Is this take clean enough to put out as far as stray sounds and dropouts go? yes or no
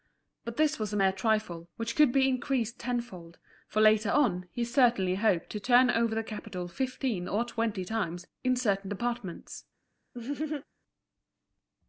no